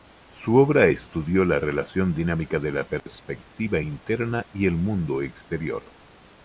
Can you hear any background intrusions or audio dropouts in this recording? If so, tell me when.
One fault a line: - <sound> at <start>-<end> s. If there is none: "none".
- dropout at 3.0-3.1 s